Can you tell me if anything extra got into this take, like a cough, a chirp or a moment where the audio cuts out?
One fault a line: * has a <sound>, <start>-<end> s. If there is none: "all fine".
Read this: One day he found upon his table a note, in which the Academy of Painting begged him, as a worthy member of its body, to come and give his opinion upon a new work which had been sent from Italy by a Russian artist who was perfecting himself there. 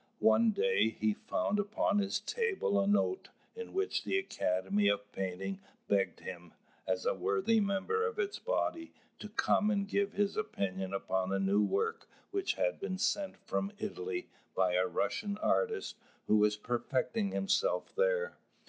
all fine